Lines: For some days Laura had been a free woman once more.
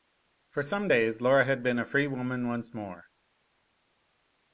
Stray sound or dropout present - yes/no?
no